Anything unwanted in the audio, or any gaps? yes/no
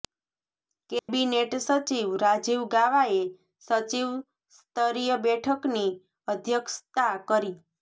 yes